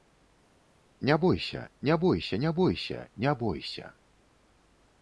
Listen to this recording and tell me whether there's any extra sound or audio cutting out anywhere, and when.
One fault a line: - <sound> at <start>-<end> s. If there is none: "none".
none